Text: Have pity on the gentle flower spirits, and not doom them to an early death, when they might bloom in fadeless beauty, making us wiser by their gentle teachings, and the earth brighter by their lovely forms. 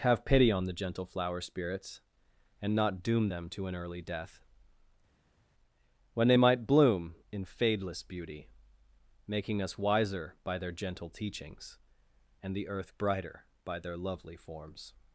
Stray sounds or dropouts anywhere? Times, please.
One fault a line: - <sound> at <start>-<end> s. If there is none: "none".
none